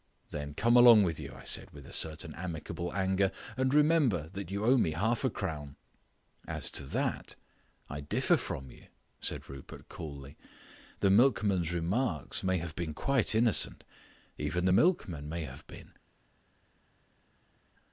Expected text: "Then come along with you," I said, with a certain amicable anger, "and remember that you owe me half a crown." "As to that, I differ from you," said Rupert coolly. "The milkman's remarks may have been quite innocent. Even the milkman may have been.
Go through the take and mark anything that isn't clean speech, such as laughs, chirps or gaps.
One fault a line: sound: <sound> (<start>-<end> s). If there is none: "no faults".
no faults